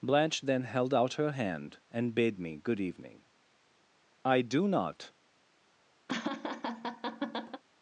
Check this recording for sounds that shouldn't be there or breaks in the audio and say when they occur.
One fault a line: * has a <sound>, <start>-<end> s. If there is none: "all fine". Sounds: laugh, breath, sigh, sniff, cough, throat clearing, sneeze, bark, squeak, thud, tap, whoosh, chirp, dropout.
* has a laugh, 6.1-7.6 s